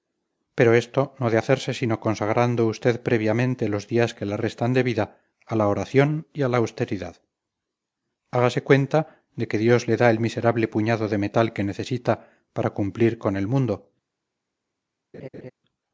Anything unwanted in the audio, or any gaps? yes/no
yes